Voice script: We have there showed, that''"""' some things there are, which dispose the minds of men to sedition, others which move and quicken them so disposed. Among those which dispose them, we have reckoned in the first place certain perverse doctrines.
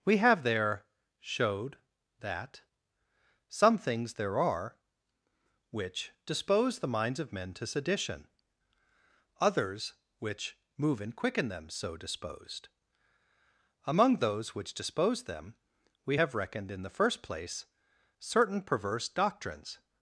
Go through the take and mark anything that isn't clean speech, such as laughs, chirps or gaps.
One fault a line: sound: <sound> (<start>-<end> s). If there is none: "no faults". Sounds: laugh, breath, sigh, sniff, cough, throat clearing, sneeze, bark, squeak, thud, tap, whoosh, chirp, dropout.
no faults